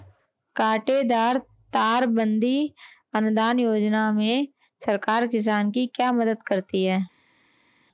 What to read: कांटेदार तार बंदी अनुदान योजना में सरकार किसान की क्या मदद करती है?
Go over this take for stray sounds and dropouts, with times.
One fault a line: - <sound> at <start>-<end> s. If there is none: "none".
none